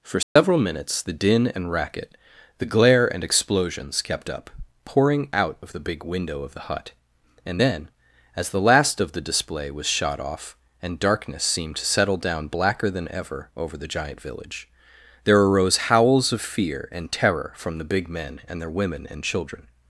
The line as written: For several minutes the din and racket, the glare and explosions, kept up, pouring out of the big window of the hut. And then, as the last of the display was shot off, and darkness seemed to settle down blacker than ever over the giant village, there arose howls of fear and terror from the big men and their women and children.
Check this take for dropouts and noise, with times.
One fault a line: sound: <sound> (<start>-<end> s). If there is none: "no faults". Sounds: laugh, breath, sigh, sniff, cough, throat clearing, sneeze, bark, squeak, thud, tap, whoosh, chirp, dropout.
sound: dropout (0.2-0.4 s)